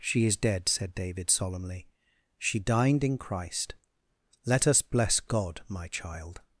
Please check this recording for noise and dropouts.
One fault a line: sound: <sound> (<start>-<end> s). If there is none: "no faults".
no faults